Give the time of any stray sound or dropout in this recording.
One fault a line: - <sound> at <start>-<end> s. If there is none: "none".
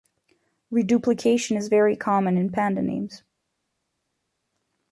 none